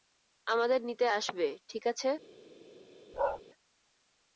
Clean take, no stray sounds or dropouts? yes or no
no